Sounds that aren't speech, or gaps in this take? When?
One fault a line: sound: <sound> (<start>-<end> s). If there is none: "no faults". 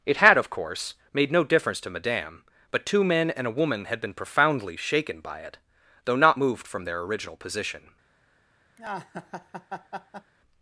sound: laugh (8.8-10.3 s)